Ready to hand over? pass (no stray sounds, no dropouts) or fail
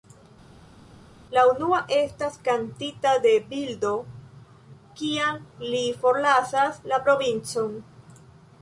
pass